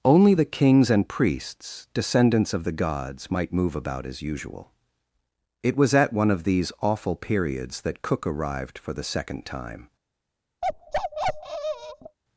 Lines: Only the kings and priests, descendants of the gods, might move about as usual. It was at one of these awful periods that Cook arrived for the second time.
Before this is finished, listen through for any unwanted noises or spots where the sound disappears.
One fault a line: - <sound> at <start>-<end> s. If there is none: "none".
- bark at 10.6-12.2 s